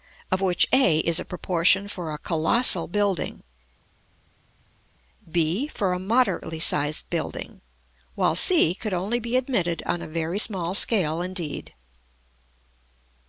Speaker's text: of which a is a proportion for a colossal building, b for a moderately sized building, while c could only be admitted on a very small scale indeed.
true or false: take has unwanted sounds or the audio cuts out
false